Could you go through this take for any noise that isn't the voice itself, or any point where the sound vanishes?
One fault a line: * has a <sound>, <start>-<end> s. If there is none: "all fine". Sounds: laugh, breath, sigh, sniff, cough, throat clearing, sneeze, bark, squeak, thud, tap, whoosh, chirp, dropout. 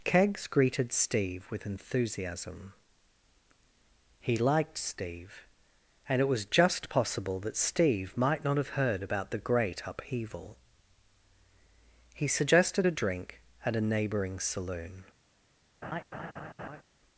* has a laugh, 15.8-16.8 s